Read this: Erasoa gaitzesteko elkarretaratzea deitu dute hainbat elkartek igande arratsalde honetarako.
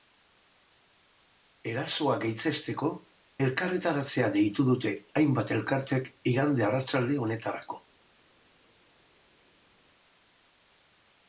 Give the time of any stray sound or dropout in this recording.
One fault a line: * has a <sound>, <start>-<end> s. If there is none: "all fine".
all fine